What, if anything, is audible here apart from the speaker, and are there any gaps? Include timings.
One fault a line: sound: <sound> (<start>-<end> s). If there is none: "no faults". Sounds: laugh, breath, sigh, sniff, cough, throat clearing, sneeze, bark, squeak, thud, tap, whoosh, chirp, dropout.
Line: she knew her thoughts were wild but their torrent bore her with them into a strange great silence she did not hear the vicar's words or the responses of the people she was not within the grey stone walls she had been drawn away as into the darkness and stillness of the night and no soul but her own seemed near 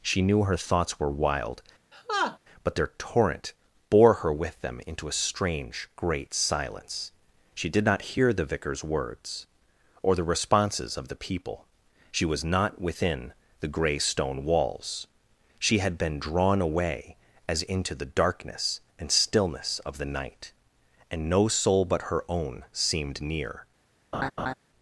sound: laugh (1.9-2.4 s)
sound: laugh (24.1-24.5 s)